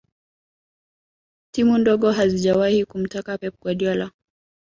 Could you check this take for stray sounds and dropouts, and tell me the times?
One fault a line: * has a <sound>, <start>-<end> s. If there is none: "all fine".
all fine